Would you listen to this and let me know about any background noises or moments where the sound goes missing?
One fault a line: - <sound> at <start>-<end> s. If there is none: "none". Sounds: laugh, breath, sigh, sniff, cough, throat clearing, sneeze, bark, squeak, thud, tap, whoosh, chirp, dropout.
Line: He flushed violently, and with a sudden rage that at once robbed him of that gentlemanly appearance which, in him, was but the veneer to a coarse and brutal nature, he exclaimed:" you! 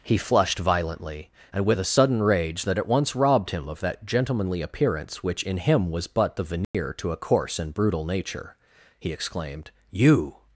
- dropout at 6.6-6.7 s